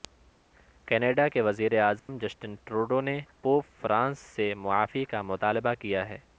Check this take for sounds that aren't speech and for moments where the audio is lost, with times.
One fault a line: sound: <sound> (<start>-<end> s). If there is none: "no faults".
sound: dropout (2.0-2.1 s)